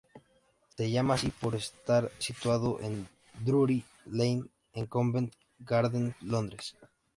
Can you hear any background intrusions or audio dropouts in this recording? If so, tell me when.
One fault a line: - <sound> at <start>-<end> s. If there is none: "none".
- dropout at 0.7-0.8 s